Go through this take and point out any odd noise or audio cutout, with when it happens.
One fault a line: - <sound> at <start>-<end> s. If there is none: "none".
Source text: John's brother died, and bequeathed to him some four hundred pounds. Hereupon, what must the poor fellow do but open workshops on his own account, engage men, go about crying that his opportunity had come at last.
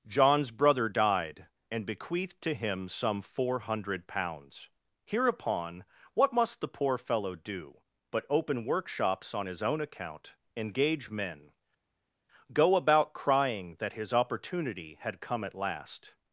none